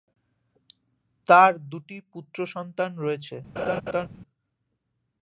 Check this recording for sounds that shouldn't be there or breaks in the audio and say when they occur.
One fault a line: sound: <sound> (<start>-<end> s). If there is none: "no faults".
sound: laugh (3.6-4.1 s)